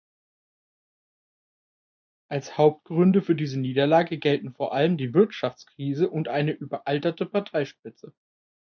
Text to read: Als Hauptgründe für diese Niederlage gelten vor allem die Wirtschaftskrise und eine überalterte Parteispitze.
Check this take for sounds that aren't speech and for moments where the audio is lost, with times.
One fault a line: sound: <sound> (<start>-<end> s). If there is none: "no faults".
no faults